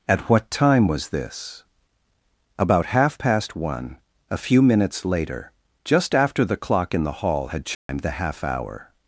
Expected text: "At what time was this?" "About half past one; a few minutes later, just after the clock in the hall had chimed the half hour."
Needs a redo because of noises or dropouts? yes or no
yes